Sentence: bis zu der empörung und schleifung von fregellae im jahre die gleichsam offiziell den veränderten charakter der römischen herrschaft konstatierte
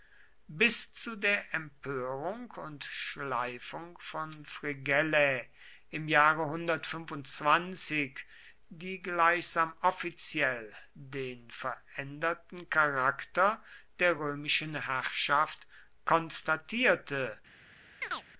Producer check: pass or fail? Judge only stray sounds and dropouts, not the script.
fail